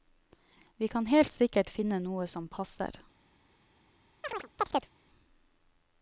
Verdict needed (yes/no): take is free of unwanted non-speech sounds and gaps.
no